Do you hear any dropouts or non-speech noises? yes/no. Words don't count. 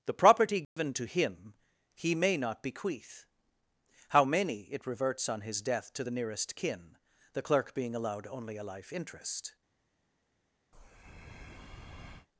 yes